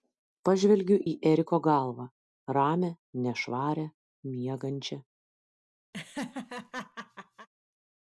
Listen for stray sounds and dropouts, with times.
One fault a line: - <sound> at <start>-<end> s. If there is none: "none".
- laugh at 5.9-7.5 s